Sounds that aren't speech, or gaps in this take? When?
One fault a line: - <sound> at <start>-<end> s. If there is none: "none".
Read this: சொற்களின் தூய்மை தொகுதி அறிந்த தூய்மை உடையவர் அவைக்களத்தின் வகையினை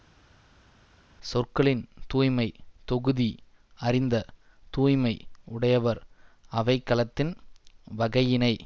none